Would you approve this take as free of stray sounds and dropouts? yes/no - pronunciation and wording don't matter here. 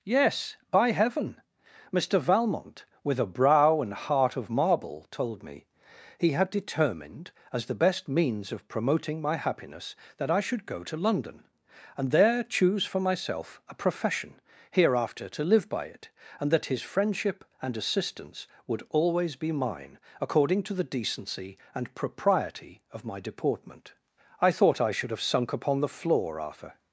yes